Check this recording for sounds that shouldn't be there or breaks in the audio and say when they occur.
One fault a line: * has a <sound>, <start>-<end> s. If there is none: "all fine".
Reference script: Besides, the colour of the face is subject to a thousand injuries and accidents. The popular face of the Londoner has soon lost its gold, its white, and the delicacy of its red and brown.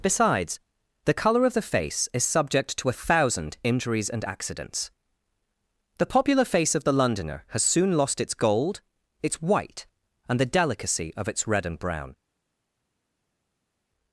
all fine